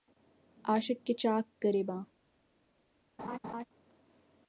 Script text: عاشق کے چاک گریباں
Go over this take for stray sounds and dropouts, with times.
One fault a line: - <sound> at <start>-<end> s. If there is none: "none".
- laugh at 3.2-3.6 s